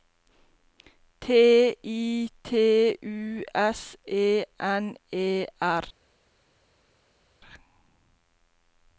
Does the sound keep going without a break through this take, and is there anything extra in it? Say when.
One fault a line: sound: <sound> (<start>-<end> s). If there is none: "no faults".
no faults